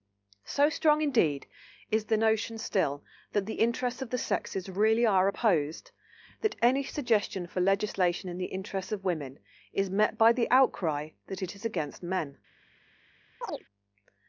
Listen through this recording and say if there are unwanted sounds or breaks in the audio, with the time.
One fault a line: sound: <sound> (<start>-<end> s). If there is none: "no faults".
sound: chirp (13.4-13.6 s)